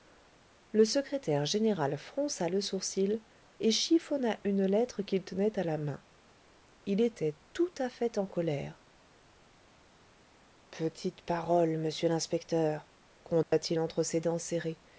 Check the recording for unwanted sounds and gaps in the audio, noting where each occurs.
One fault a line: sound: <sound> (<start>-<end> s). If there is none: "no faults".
sound: dropout (13.4-13.5 s)